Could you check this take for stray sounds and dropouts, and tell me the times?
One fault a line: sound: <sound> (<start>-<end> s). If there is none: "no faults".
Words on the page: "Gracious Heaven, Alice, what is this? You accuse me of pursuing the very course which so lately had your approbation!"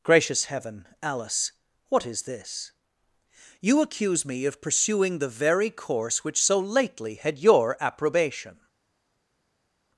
no faults